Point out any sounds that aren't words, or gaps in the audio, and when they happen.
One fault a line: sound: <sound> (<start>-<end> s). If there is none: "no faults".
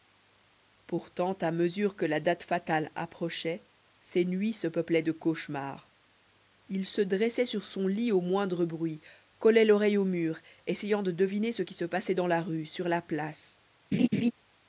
sound: laugh (13.9-14.3 s)